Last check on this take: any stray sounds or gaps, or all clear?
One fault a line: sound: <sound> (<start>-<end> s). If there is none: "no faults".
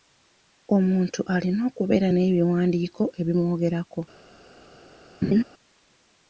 sound: laugh (5.2-5.4 s)